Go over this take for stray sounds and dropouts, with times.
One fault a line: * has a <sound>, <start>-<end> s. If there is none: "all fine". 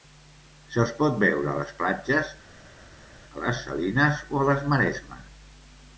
all fine